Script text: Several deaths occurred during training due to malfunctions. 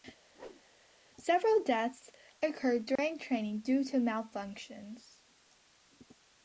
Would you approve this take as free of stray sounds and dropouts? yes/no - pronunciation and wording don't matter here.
no